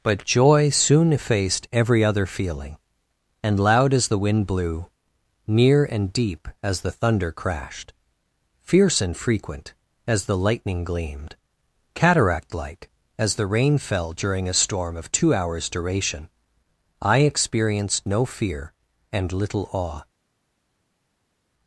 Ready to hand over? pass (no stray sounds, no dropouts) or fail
pass